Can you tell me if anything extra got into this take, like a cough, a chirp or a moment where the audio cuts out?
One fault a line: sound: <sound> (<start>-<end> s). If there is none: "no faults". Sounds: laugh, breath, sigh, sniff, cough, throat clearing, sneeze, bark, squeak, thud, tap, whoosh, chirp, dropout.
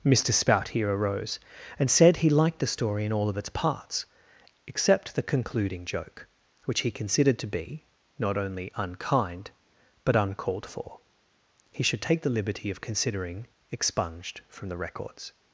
no faults